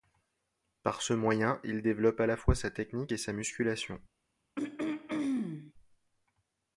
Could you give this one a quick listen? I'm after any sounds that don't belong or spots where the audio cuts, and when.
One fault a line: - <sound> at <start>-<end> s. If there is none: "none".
- throat clearing at 4.6-5.7 s